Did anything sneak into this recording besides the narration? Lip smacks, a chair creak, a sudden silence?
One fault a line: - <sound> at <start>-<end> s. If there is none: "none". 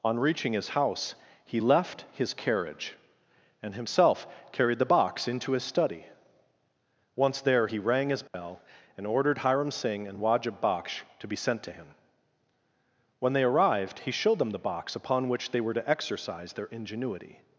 - dropout at 8.3-8.3 s